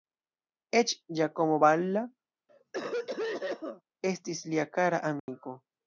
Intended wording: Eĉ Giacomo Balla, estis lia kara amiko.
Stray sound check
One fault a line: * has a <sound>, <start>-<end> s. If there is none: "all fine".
* has a cough, 2.5-3.8 s
* has a dropout, 5.2-5.3 s